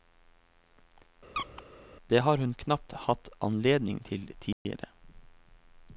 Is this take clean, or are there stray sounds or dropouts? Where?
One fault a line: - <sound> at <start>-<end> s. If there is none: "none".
- squeak at 1.3-1.6 s
- dropout at 4.5-4.7 s